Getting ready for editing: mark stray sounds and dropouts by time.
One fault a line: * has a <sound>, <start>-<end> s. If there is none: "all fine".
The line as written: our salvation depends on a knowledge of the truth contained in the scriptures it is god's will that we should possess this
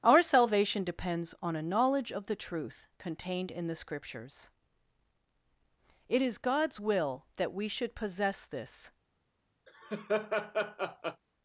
* has a laugh, 9.7-11.2 s